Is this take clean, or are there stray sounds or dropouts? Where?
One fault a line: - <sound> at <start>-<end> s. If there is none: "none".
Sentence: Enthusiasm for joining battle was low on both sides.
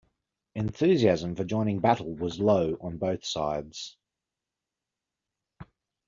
none